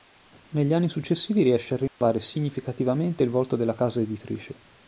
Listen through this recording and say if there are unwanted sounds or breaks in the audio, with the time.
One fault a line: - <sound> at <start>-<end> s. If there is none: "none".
- dropout at 1.9-2.0 s